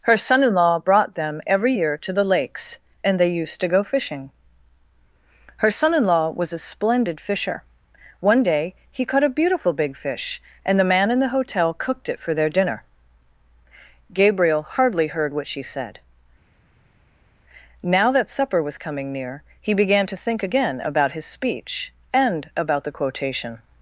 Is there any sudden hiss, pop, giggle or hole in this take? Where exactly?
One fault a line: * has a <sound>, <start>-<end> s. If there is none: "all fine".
all fine